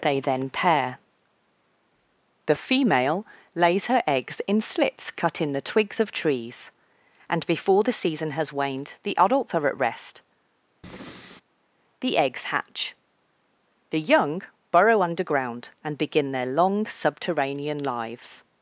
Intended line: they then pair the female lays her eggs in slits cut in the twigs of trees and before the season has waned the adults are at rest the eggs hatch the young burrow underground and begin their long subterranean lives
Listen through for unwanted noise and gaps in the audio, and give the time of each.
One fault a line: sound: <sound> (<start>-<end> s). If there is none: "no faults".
sound: breath (10.8-11.4 s)